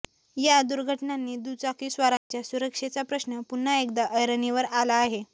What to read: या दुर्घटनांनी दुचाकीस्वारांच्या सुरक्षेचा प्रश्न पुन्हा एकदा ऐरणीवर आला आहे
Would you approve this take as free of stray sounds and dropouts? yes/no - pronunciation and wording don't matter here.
no